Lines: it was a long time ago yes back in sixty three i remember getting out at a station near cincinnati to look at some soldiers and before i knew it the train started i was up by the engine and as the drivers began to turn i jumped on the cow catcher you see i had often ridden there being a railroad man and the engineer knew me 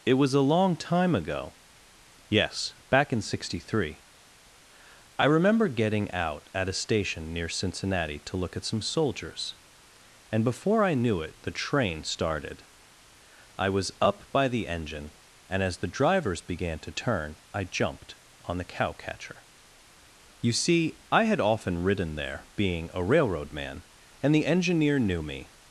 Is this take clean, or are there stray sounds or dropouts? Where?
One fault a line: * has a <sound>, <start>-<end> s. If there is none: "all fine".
all fine